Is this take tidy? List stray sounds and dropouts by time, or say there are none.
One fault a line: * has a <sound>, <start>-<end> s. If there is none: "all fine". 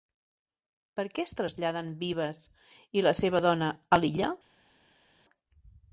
all fine